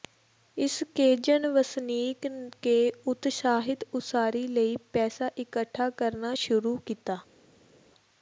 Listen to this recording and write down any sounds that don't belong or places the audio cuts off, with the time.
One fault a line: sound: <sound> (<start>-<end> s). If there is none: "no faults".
no faults